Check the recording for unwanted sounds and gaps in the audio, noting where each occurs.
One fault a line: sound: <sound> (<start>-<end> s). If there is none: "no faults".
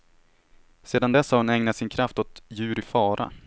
no faults